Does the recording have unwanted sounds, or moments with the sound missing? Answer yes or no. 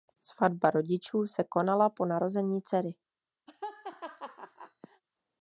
yes